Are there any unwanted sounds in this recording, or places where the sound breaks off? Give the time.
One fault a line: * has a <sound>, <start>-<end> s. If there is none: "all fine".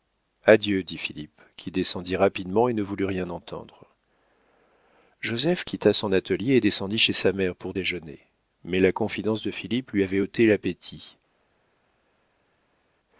all fine